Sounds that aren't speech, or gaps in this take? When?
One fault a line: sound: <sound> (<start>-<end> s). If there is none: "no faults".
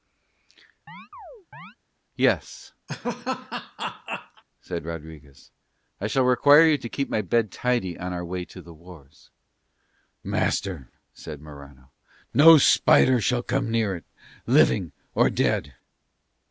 sound: chirp (0.9-1.8 s)
sound: laugh (2.9-4.4 s)